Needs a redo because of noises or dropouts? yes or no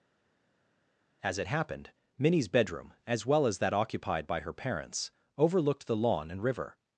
no